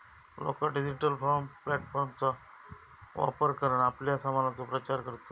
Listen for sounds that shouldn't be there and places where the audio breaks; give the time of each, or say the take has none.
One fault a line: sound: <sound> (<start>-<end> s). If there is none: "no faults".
no faults